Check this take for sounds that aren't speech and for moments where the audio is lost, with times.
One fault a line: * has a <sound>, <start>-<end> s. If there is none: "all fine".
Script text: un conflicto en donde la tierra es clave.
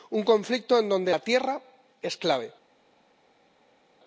all fine